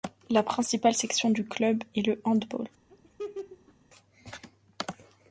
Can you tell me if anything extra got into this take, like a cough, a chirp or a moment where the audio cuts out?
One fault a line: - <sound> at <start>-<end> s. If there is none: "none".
- laugh at 2.9-3.7 s